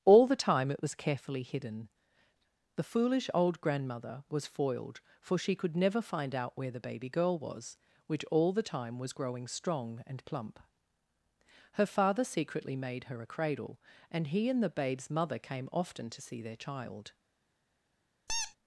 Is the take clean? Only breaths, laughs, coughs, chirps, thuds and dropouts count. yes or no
no